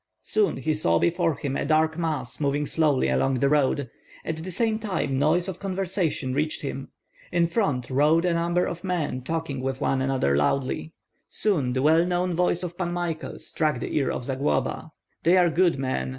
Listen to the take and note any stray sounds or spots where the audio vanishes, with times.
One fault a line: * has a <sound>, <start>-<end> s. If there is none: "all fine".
all fine